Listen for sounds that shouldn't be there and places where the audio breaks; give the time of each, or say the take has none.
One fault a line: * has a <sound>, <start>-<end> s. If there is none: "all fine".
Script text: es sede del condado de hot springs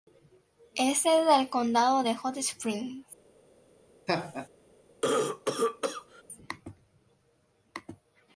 * has a laugh, 4.1-4.5 s
* has a cough, 5.0-6.2 s